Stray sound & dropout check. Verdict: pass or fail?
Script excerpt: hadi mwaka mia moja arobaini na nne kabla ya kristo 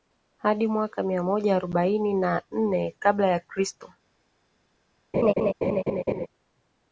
fail